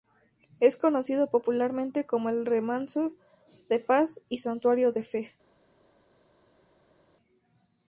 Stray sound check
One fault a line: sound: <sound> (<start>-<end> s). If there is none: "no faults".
no faults